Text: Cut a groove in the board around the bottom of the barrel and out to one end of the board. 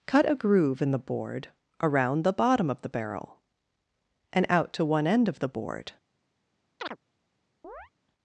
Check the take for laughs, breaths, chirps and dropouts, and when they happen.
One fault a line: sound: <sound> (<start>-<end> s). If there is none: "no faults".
sound: chirp (6.8-7.0 s)
sound: chirp (7.6-7.9 s)